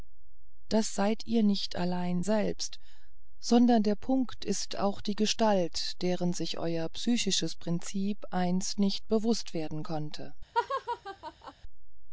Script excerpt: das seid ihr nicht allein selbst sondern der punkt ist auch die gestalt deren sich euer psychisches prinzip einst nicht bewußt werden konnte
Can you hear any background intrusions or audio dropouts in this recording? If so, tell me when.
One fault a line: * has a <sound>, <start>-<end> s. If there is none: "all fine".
* has a laugh, 10.5-11.5 s